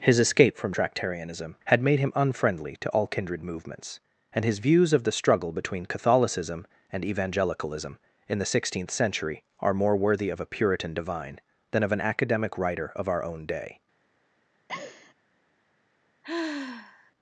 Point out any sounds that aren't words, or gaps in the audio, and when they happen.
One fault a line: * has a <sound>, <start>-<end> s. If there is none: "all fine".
* has a laugh, 14.7-15.1 s
* has a sigh, 16.2-17.1 s